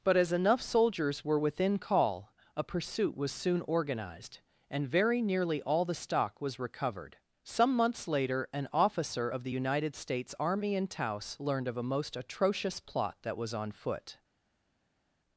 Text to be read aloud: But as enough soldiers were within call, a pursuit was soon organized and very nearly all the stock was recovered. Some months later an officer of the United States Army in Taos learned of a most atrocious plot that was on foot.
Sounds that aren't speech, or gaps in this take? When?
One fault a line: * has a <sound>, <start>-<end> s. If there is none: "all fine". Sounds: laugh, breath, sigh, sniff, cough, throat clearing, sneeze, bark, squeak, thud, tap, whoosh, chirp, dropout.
all fine